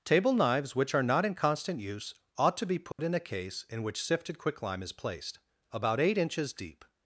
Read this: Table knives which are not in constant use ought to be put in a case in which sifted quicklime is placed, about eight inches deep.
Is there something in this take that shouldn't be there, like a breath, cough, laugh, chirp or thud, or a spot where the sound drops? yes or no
yes